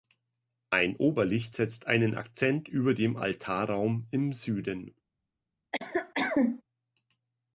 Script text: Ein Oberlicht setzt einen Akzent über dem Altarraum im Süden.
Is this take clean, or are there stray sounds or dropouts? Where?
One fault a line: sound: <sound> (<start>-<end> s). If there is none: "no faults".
sound: cough (5.7-6.6 s)